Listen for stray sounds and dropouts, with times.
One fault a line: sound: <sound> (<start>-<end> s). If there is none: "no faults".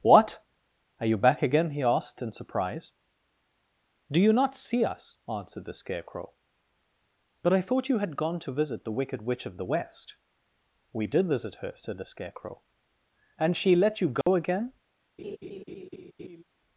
sound: dropout (14.2-14.3 s)
sound: laugh (15.2-16.4 s)